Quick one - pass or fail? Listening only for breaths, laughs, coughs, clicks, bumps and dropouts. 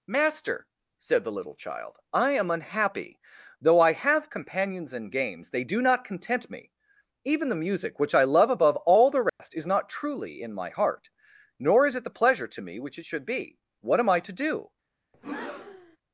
fail